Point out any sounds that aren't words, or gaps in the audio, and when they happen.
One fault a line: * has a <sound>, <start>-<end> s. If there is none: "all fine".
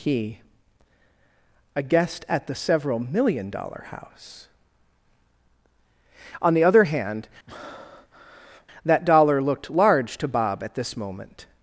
* has a breath, 7.5-8.7 s